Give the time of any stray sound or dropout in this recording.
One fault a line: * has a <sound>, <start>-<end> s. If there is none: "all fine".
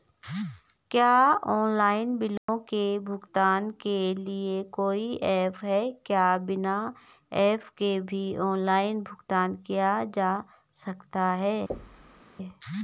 * has a dropout, 2.4-2.5 s
* has a thud, 11.7-12.2 s